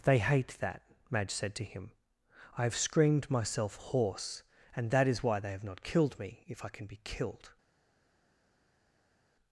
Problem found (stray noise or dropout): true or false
false